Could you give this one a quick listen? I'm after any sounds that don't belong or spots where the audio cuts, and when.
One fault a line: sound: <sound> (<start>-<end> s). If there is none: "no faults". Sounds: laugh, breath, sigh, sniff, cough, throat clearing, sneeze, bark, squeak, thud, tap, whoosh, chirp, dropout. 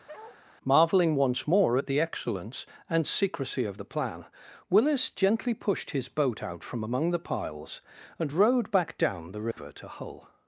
sound: bark (0.1-0.4 s)
sound: dropout (9.5-9.6 s)